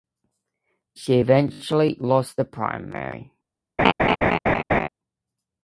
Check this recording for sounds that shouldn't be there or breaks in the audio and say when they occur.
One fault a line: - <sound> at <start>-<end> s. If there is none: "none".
- laugh at 3.8-4.9 s